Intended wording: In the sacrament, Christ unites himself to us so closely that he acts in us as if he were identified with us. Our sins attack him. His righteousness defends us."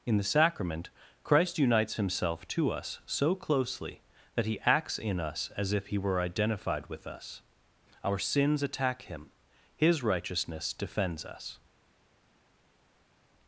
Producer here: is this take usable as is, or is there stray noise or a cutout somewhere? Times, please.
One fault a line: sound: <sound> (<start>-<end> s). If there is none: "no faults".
no faults